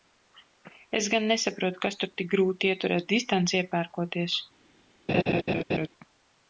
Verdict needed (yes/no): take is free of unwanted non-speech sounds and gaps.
no